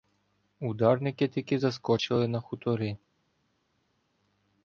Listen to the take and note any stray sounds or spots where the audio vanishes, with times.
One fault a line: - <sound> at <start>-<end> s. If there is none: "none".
none